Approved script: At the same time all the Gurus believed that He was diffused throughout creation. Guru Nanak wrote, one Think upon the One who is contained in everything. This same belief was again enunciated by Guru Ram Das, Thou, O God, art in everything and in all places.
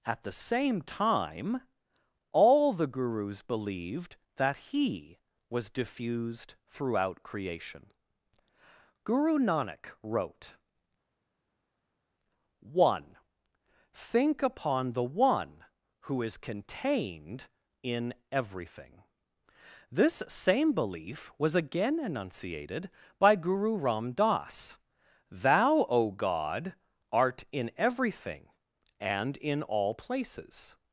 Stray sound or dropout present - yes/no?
no